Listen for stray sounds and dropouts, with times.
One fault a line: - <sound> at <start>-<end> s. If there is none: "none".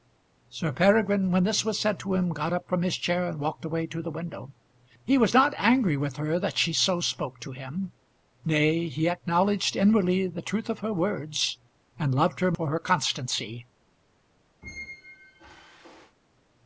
- squeak at 14.6-16.2 s